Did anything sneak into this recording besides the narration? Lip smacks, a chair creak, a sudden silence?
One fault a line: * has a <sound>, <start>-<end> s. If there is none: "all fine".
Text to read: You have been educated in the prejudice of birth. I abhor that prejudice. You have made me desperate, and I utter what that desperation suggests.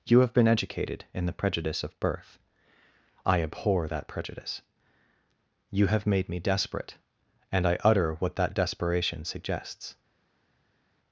all fine